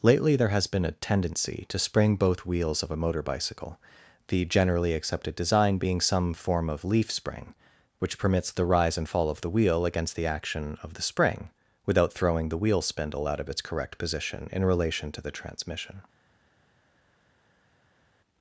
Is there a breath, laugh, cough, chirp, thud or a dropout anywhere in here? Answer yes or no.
no